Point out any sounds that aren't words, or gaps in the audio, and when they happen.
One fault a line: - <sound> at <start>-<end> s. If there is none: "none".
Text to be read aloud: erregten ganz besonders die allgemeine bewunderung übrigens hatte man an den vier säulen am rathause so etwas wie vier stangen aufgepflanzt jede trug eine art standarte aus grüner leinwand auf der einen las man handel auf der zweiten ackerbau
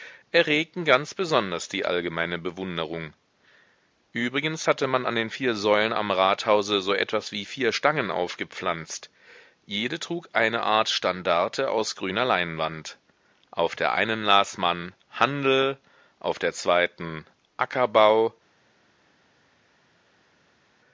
none